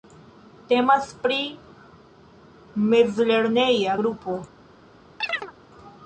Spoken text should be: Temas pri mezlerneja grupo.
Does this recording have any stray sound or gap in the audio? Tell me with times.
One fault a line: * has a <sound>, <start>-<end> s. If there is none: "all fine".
* has a chirp, 5.2-5.5 s